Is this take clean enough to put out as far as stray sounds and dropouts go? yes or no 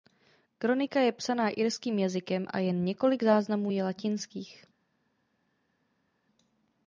yes